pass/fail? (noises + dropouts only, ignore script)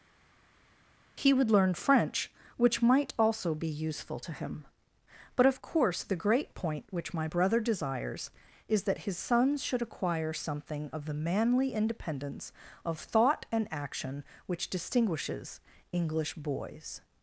pass